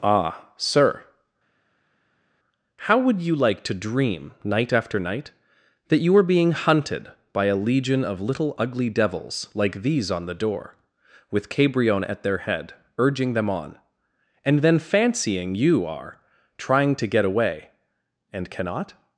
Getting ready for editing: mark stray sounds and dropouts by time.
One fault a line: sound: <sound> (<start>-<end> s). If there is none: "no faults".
no faults